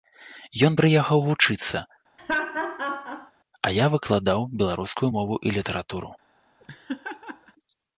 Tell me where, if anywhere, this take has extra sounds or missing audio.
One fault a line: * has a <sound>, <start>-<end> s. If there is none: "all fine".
* has a laugh, 2.2-3.3 s
* has a laugh, 6.6-7.5 s